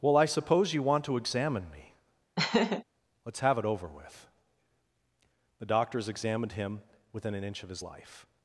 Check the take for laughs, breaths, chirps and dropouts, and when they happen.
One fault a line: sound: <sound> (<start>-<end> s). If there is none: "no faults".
sound: laugh (2.4-2.8 s)